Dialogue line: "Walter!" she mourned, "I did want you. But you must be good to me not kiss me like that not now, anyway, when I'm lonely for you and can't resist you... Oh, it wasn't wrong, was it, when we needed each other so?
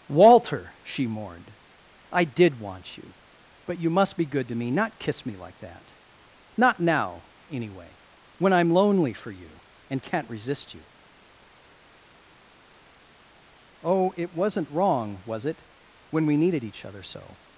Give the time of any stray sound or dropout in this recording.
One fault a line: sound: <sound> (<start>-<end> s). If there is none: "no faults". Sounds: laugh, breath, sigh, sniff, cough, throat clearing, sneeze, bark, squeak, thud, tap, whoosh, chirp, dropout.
no faults